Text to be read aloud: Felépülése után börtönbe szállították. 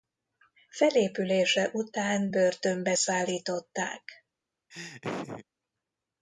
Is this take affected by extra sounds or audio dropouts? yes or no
yes